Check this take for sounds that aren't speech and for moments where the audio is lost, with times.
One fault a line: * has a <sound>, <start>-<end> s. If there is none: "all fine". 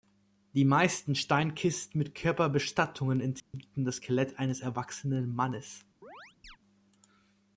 * has a dropout, 3.4-3.5 s
* has a chirp, 6.0-6.6 s